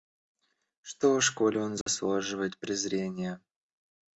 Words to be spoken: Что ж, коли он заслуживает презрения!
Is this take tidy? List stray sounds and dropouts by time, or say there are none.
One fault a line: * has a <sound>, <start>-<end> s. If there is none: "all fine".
* has a dropout, 1.8-1.9 s